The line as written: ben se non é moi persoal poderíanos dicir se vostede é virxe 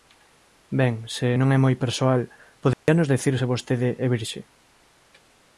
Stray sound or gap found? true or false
true